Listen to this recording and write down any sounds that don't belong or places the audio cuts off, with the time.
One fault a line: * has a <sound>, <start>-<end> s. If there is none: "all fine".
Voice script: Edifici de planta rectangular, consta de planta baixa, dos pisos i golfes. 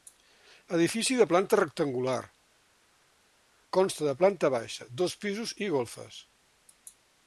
all fine